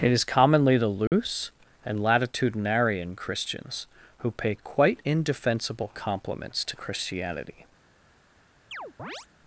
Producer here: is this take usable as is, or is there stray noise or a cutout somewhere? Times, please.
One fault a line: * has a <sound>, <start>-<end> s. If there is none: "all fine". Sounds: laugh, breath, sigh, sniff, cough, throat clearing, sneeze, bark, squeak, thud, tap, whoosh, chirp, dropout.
* has a dropout, 1.1-1.1 s
* has a chirp, 8.7-9.3 s